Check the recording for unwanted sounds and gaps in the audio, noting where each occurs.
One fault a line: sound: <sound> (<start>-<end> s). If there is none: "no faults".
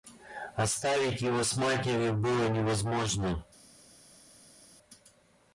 no faults